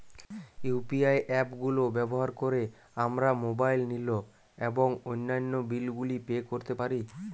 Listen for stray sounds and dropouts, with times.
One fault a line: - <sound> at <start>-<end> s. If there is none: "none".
none